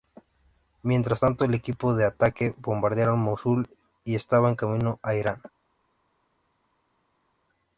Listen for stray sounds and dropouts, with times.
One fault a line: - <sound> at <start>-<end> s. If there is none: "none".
none